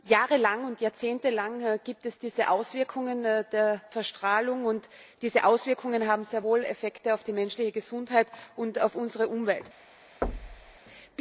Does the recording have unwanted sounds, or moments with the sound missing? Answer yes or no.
yes